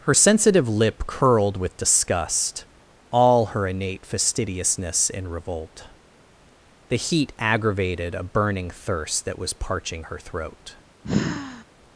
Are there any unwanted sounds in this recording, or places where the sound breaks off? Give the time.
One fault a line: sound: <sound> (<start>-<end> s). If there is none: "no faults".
sound: sigh (11.0-11.6 s)